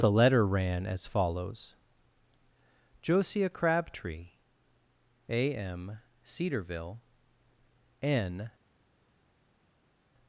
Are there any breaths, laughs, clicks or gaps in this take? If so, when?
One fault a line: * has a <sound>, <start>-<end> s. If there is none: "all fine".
all fine